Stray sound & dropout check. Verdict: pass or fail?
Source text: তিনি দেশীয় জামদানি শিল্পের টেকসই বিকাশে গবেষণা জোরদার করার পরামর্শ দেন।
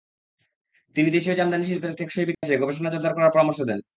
fail